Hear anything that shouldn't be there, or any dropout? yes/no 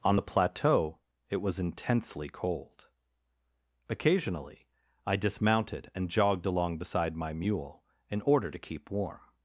no